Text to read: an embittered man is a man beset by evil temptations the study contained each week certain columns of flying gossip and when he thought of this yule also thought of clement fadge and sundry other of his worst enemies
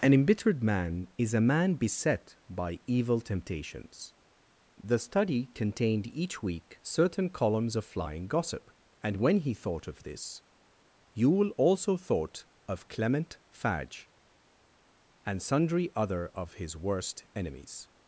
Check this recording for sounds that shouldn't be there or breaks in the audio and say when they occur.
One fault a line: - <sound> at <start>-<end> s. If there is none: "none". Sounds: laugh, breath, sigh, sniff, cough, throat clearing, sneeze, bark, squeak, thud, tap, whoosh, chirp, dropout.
none